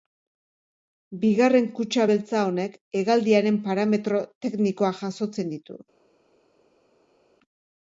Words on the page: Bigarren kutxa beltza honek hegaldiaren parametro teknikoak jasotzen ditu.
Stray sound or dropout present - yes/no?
no